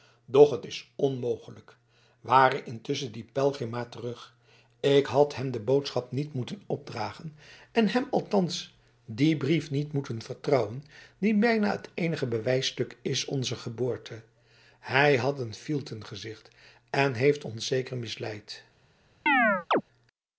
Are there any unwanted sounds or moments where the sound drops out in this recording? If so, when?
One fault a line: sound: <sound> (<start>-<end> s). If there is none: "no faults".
sound: chirp (19.3-19.8 s)